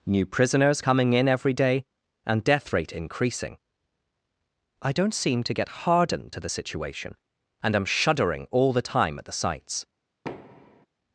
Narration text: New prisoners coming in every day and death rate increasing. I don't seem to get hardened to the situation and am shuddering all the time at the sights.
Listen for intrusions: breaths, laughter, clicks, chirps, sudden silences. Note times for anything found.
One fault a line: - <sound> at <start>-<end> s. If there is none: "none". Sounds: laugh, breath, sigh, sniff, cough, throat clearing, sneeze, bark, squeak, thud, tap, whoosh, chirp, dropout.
- thud at 10.2-10.9 s